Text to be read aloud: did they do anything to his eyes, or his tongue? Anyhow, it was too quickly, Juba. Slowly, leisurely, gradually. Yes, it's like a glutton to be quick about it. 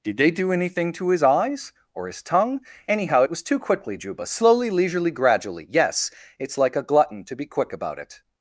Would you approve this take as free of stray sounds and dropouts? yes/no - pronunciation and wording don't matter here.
yes